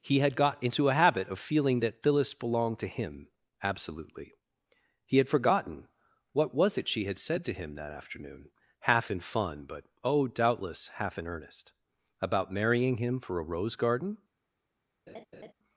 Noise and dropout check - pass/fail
fail